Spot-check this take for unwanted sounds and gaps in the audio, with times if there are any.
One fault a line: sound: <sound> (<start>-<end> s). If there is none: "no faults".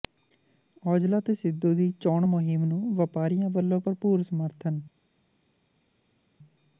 no faults